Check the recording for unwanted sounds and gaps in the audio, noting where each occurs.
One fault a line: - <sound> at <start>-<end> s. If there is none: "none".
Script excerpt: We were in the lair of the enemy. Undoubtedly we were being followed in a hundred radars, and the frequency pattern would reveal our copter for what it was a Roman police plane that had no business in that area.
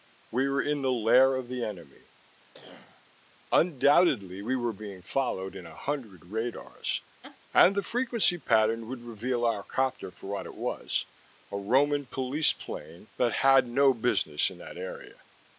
- cough at 2.5-3.1 s
- laugh at 7.2-7.4 s